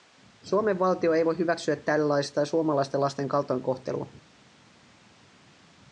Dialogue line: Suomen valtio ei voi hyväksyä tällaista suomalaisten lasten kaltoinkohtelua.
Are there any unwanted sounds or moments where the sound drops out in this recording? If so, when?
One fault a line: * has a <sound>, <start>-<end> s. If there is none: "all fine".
all fine